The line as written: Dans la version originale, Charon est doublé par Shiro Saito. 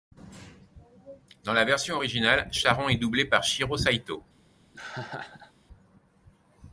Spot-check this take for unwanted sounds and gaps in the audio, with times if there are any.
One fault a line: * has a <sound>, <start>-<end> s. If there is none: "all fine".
* has a laugh, 4.7-5.5 s